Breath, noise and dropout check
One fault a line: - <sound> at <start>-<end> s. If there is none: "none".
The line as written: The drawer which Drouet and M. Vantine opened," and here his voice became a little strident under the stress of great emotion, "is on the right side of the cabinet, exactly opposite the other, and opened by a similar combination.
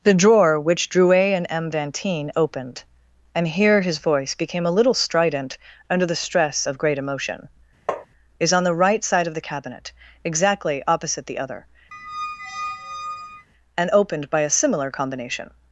- tap at 7.9-8.1 s
- squeak at 11.9-13.5 s